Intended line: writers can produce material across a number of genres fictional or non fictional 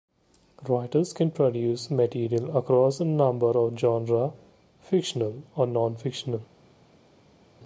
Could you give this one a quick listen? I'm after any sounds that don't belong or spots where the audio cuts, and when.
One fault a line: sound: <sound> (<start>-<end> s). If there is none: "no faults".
no faults